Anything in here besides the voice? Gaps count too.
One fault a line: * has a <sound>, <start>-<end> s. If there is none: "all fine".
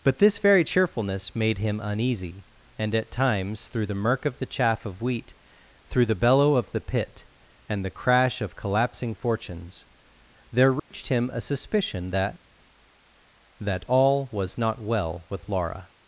* has a dropout, 10.8-10.9 s